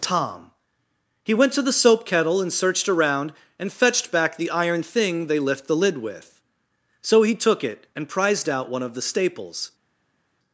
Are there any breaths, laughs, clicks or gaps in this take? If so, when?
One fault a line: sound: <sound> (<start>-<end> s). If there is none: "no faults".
no faults